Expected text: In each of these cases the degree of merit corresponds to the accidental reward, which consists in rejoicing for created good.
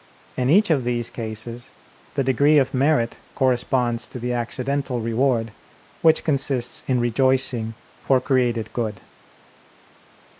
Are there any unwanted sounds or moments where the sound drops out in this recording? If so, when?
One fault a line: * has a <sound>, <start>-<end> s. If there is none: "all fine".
all fine